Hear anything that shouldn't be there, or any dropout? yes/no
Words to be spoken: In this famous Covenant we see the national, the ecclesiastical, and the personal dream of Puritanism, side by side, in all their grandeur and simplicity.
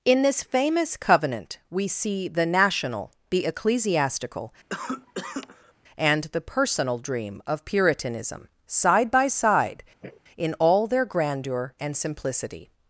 yes